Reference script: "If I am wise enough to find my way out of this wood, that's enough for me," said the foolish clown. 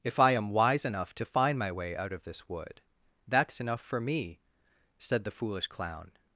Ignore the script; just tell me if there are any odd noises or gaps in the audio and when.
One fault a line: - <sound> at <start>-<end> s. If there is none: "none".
none